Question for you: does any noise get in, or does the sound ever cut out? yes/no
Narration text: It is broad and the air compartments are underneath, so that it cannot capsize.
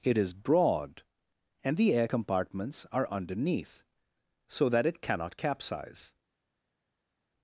no